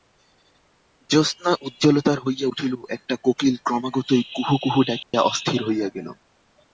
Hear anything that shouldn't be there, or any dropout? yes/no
yes